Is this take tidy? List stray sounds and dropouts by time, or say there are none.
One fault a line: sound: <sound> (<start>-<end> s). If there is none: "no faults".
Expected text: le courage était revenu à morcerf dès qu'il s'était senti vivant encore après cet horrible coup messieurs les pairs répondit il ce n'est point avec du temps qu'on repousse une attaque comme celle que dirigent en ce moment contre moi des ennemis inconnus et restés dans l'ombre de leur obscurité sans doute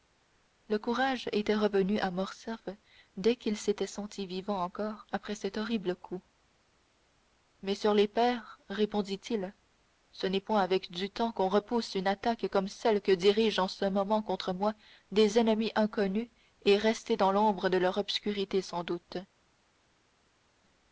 no faults